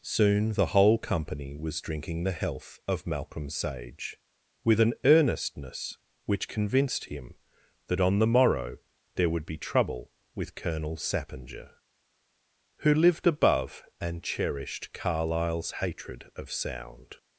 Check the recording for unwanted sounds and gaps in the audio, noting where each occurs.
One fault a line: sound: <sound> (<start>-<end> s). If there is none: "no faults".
no faults